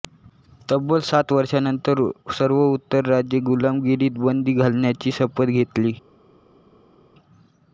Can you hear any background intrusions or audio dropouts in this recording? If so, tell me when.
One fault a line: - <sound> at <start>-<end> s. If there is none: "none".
none